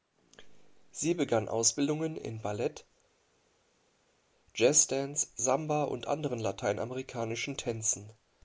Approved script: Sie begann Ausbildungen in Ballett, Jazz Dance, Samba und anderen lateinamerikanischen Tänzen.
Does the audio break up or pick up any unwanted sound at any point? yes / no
no